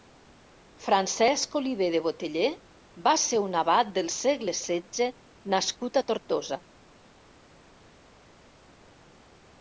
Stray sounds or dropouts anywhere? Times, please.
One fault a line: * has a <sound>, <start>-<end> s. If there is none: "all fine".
all fine